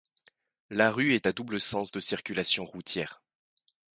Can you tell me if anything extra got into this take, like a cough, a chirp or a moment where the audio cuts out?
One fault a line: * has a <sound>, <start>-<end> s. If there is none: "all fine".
all fine